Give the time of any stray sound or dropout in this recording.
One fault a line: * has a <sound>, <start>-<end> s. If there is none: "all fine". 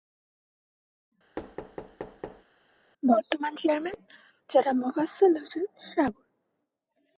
* has a thud, 1.4-2.4 s